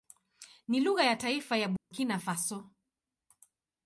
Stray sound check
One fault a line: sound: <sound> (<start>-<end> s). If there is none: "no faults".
sound: dropout (1.8-1.9 s)